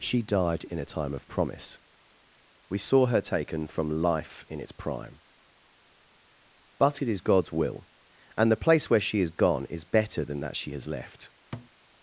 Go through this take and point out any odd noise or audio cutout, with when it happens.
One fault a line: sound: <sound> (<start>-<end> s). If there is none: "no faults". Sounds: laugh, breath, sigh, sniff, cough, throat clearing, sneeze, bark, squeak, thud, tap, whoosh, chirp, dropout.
sound: thud (11.5-11.7 s)